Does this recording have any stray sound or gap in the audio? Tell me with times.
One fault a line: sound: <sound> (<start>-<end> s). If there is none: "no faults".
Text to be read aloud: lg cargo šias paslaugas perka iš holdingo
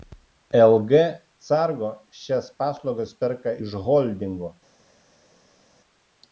no faults